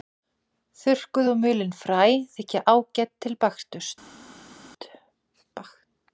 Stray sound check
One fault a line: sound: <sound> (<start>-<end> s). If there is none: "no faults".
no faults